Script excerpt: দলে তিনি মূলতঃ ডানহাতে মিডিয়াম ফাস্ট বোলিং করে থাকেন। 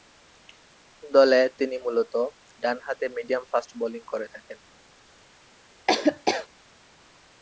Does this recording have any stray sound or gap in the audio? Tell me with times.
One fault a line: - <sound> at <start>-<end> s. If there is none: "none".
- laugh at 5.9-6.5 s